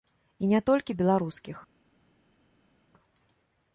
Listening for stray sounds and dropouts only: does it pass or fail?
pass